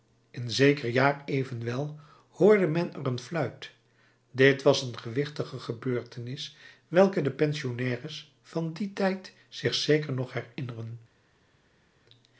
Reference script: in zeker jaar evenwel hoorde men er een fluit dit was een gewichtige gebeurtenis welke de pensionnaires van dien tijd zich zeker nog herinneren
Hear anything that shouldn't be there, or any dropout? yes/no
no